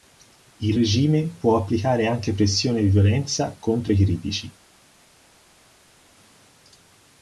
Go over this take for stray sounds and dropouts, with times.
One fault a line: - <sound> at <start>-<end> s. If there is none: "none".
none